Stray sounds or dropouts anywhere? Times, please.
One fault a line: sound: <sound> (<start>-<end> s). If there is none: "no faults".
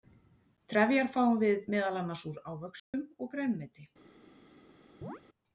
sound: dropout (2.8-2.9 s)
sound: chirp (5.0-5.2 s)